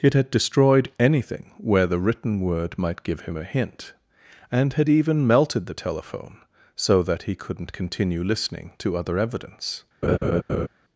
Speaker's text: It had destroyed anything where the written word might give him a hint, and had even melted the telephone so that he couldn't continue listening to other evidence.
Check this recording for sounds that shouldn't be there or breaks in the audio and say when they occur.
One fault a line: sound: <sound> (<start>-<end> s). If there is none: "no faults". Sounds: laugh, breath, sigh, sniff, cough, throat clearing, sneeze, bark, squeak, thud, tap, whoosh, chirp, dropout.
sound: laugh (10.0-10.7 s)